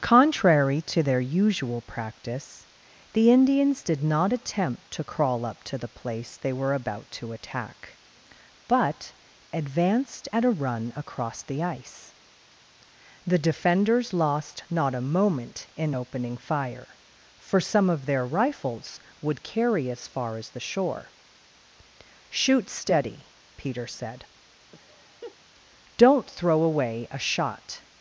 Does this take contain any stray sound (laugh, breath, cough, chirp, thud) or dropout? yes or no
yes